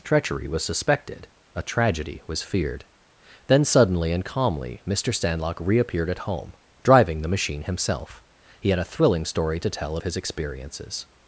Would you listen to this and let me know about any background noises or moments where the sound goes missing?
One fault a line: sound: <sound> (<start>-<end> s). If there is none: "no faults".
no faults